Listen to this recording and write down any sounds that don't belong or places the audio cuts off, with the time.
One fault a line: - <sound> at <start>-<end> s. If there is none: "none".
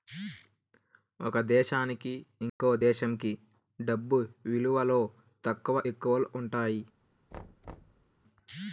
- dropout at 2.5-2.6 s
- thud at 7.3-8.1 s